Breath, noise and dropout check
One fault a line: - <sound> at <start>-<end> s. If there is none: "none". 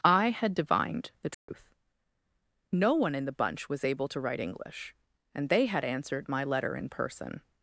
- dropout at 1.3-1.5 s